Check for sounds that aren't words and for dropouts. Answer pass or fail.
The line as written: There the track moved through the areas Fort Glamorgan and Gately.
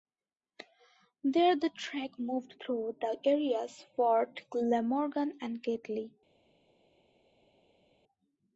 pass